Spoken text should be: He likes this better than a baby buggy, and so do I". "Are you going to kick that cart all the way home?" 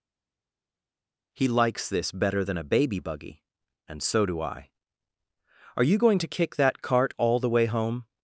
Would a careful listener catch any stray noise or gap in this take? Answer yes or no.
no